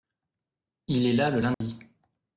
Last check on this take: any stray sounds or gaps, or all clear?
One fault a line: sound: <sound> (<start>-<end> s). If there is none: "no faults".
sound: dropout (1.5-1.6 s)